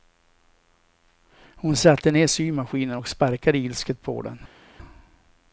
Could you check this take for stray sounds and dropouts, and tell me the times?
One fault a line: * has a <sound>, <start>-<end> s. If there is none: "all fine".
all fine